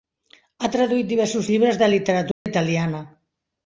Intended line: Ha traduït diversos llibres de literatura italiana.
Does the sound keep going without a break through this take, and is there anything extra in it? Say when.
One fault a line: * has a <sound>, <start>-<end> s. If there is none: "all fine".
* has a dropout, 2.3-2.5 s